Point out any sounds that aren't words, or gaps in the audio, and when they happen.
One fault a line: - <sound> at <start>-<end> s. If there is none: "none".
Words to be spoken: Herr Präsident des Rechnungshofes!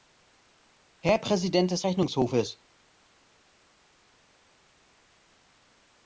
none